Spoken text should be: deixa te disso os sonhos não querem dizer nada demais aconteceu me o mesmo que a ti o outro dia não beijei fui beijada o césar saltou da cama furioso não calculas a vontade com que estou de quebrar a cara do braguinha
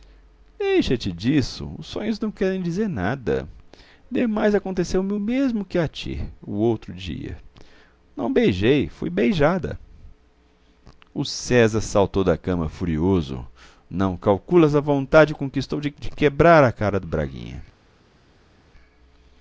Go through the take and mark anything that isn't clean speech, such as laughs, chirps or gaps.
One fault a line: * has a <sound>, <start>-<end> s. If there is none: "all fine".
all fine